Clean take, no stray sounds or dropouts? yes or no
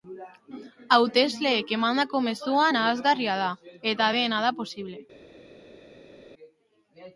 yes